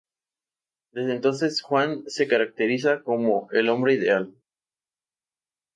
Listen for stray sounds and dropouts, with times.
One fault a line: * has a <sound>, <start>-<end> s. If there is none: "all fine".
all fine